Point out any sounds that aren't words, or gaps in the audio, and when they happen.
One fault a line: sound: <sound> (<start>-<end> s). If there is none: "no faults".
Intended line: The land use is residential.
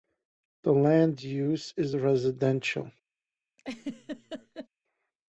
sound: laugh (3.6-4.7 s)